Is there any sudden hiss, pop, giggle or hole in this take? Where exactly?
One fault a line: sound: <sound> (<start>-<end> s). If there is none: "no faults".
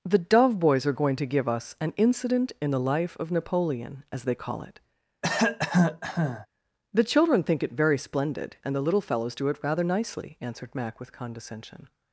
sound: cough (5.2-6.5 s)